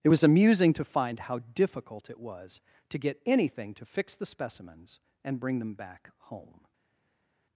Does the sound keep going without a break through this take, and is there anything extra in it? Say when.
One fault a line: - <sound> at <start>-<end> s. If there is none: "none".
none